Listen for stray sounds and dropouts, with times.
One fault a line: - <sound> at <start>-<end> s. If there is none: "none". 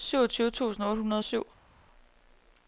none